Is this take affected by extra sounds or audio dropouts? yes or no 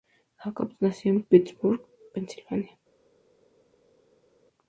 no